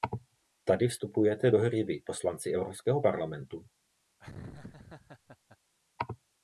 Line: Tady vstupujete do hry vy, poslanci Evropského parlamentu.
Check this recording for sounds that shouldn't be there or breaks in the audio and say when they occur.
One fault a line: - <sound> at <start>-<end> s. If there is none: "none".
- laugh at 4.2-5.6 s